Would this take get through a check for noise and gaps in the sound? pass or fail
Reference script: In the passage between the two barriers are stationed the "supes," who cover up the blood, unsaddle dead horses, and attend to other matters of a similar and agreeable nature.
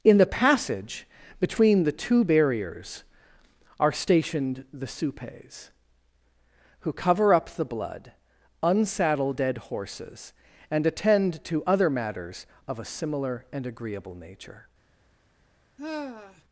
fail